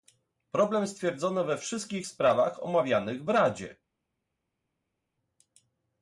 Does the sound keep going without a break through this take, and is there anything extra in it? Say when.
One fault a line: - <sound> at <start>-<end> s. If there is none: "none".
none